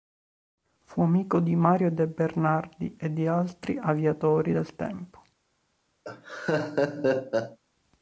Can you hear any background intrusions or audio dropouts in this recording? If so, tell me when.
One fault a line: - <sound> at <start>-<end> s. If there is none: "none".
- laugh at 6.0-7.6 s